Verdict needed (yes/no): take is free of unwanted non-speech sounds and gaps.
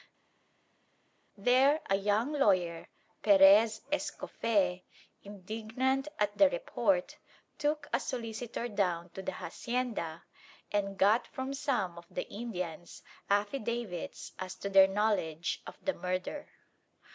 yes